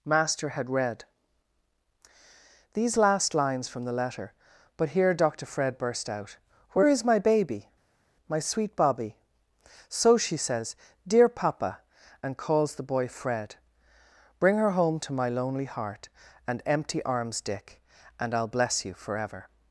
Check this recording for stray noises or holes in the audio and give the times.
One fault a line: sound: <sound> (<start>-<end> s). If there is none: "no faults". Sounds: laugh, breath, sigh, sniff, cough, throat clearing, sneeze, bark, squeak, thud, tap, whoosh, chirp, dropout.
no faults